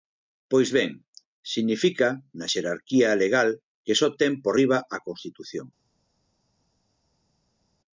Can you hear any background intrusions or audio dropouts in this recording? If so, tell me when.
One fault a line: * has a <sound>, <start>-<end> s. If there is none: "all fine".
all fine